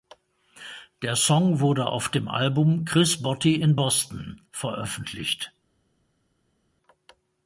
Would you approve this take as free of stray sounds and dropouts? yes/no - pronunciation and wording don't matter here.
yes